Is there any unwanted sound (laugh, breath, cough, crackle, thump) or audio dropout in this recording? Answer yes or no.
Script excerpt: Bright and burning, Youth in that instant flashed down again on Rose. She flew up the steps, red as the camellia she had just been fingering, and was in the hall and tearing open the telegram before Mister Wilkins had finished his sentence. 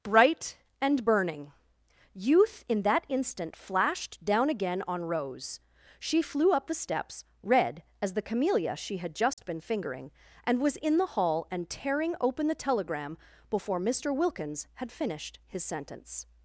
yes